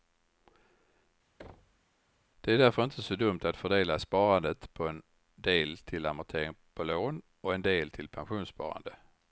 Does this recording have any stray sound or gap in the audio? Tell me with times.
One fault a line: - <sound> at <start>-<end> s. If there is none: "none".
- thud at 1.4-1.8 s